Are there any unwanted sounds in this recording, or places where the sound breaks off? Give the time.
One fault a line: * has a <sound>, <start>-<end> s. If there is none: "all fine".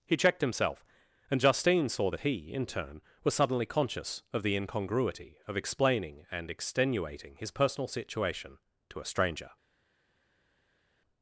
all fine